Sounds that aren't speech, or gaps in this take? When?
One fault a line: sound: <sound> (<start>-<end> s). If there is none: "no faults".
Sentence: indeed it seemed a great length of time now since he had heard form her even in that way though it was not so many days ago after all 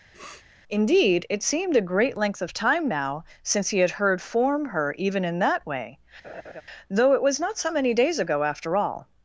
sound: sniff (0.1-0.5 s)
sound: laugh (6.2-6.6 s)